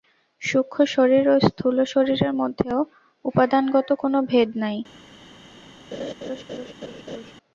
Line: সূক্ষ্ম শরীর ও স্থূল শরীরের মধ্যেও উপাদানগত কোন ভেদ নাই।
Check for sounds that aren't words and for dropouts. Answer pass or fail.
fail